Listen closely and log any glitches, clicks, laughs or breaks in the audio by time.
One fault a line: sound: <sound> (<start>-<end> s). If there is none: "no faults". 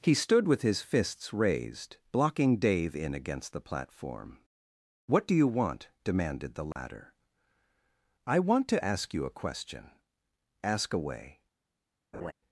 sound: dropout (6.7-6.8 s)
sound: laugh (12.1-12.3 s)